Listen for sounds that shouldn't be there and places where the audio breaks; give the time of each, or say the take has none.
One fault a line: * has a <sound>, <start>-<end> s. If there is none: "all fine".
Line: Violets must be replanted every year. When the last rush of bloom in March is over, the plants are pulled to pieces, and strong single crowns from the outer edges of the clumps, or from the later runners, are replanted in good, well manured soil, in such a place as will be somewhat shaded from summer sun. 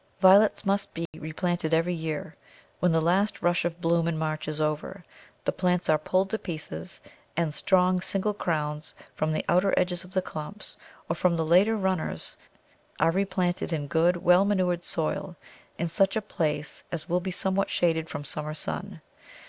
* has a dropout, 1.1-1.1 s